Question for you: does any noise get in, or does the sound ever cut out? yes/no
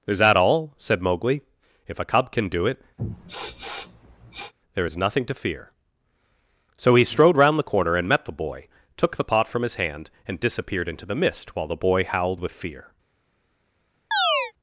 yes